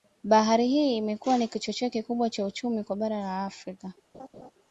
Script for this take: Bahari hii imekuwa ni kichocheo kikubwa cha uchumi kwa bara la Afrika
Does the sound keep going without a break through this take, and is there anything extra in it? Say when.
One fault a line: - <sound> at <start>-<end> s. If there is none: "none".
- laugh at 4.1-4.5 s